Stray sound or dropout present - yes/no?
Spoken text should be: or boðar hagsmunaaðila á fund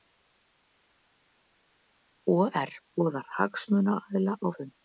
no